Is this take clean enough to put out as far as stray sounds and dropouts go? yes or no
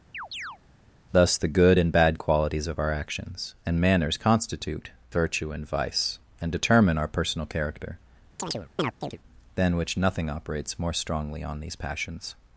no